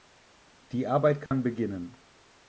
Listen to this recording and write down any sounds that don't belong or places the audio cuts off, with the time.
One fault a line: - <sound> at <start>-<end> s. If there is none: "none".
- dropout at 1.3-1.3 s